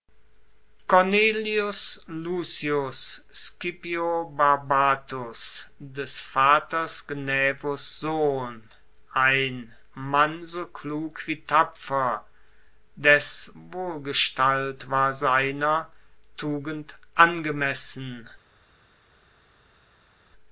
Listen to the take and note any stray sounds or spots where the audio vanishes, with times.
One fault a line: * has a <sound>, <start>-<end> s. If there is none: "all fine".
all fine